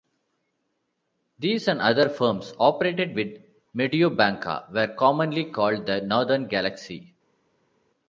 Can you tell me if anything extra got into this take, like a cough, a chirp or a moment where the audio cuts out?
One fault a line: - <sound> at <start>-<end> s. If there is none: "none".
none